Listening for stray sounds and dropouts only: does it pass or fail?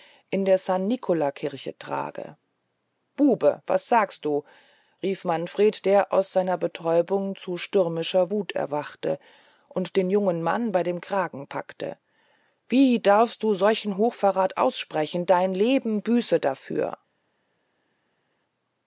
pass